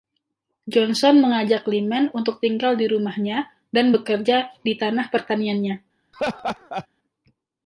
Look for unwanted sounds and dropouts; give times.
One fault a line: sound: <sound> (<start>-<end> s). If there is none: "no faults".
sound: laugh (6.1-6.9 s)